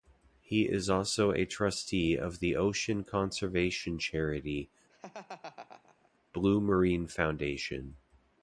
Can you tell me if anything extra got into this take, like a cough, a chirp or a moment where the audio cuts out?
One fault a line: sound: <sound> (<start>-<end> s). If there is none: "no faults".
sound: laugh (4.9-6.1 s)